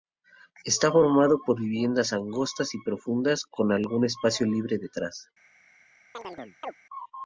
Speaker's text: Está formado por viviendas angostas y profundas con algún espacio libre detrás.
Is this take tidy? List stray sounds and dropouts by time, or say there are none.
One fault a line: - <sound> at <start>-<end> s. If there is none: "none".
- chirp at 6.1-6.8 s